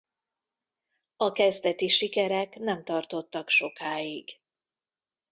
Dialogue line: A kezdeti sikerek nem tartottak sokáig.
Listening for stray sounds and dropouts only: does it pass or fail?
pass